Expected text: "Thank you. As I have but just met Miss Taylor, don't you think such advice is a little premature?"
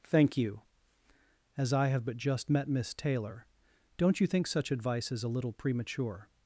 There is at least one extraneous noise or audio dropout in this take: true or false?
false